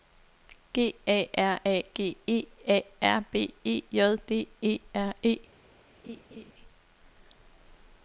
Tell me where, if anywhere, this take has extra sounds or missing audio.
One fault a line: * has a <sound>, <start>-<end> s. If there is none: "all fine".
* has a laugh, 6.0-6.5 s